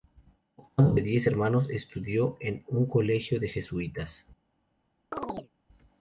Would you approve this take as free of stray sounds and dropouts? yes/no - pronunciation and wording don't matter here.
no